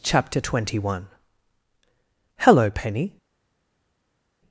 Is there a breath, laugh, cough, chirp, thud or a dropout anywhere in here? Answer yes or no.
no